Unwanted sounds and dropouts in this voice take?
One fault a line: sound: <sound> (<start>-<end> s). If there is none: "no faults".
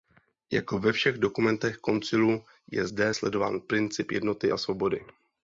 no faults